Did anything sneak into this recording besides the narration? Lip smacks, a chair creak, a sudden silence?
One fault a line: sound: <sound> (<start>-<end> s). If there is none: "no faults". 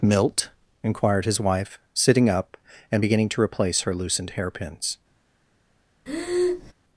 sound: breath (6.1-6.7 s)